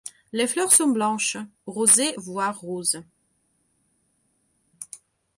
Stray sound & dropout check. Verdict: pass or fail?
pass